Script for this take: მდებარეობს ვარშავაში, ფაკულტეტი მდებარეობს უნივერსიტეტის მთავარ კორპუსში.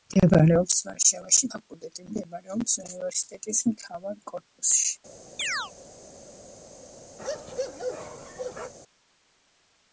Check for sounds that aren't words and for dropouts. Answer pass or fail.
fail